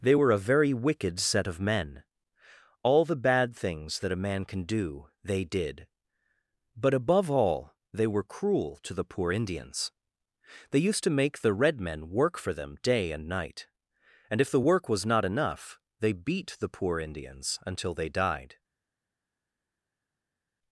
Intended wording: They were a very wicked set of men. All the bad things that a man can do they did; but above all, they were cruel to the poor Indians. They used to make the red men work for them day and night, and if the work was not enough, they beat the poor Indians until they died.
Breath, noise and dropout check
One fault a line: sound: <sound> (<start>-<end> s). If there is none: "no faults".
no faults